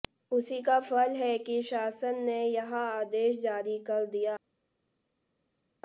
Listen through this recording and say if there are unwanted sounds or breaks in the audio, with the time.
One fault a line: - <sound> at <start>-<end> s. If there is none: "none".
none